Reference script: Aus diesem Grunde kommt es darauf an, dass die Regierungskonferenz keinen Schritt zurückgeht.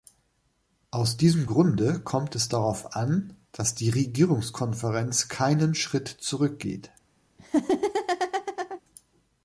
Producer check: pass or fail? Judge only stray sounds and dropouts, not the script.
fail